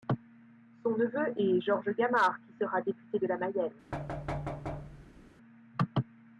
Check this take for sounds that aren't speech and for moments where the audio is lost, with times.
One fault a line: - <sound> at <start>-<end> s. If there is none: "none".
- thud at 3.9-5.3 s